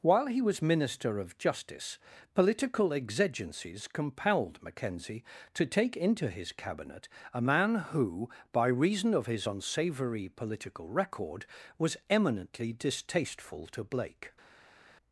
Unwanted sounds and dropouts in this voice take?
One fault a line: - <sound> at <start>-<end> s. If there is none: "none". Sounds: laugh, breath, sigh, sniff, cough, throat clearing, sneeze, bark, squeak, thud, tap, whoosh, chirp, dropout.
none